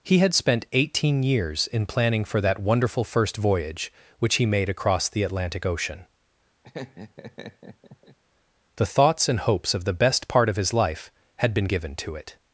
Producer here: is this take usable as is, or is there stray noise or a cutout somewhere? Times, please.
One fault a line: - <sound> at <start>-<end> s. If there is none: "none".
- laugh at 6.6-8.2 s